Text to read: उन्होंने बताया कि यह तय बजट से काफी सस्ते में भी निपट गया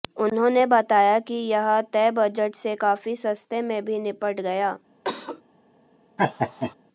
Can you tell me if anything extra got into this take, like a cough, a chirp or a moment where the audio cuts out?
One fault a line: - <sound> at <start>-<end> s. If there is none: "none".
- cough at 5.0-5.4 s
- laugh at 6.2-6.7 s